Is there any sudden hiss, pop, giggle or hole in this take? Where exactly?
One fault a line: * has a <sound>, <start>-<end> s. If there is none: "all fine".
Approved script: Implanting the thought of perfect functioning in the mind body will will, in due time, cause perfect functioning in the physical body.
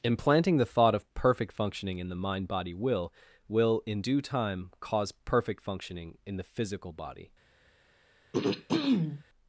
* has a throat clearing, 8.3-9.2 s